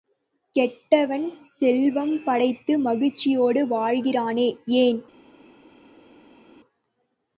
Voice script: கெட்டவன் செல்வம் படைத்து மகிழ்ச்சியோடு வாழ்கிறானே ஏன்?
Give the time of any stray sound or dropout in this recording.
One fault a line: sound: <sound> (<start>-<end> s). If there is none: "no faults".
no faults